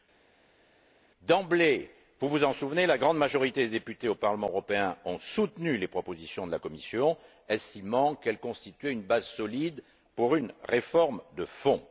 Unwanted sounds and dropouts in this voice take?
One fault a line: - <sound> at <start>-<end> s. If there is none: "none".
none